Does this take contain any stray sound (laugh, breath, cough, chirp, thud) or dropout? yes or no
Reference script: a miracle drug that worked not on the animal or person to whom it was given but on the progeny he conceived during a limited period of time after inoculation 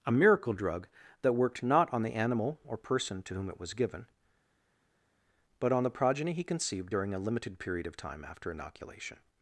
no